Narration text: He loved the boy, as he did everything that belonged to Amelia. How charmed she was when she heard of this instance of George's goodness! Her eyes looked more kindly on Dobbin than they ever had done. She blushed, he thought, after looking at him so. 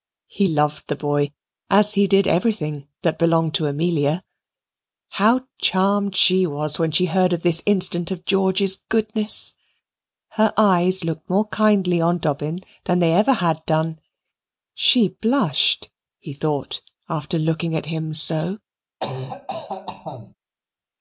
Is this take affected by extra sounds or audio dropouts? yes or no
yes